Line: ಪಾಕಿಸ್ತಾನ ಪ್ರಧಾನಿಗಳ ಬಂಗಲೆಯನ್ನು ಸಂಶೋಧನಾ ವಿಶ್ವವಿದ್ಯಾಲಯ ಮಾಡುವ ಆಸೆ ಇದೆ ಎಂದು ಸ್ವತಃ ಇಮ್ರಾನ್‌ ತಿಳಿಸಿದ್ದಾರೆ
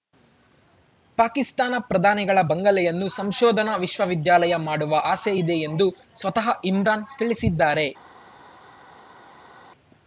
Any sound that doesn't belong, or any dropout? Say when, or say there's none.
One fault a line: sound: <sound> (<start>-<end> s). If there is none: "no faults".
no faults